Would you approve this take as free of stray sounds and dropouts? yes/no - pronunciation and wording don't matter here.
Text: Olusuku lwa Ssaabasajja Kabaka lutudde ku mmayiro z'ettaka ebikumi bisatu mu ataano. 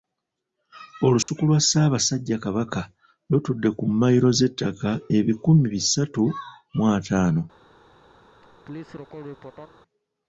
no